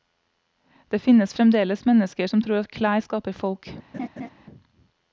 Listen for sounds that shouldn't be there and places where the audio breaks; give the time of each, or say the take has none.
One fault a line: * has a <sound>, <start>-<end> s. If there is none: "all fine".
* has a laugh, 3.9-4.3 s